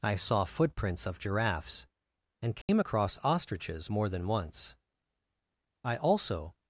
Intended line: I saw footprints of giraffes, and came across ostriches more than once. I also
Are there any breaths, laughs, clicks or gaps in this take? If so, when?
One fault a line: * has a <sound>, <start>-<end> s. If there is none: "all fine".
* has a dropout, 2.6-2.7 s